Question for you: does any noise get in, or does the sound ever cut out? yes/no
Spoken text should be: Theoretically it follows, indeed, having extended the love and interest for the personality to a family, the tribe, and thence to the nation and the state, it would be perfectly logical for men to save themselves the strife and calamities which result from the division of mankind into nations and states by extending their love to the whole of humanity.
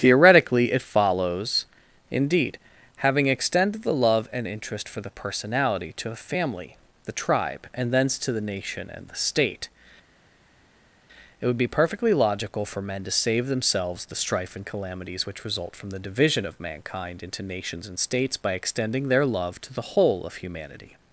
no